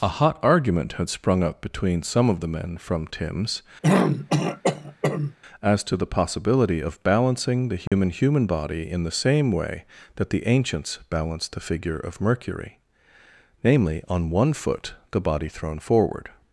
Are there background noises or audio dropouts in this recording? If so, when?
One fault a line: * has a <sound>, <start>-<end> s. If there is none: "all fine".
* has a throat clearing, 3.8-5.4 s
* has a dropout, 7.9-7.9 s